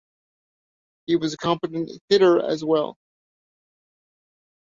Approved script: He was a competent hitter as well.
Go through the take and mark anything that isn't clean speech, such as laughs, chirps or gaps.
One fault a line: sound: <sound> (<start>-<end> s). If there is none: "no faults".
no faults